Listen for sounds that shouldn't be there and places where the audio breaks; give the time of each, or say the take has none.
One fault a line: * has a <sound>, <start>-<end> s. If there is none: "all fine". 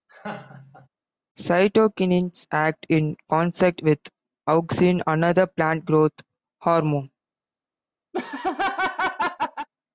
* has a laugh, 0.1-0.9 s
* has a laugh, 8.1-9.7 s